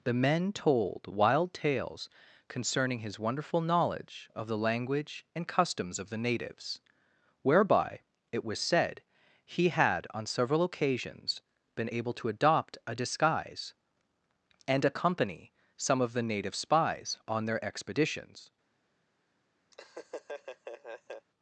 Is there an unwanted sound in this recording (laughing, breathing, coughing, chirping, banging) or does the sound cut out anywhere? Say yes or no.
yes